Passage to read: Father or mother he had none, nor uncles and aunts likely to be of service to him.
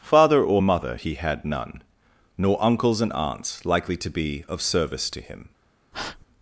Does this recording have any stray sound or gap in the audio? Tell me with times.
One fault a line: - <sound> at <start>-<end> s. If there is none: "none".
- breath at 5.9-6.3 s